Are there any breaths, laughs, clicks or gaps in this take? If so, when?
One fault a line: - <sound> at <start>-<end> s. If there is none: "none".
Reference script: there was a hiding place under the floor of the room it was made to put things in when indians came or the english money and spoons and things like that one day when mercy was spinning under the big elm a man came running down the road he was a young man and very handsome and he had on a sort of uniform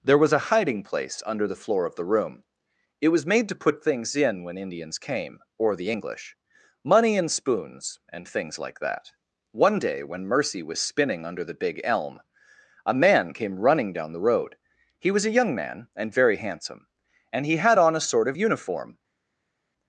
none